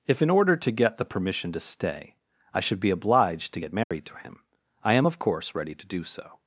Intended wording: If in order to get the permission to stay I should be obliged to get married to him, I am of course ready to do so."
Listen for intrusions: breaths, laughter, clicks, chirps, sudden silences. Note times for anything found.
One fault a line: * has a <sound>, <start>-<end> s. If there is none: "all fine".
* has a dropout, 3.8-3.9 s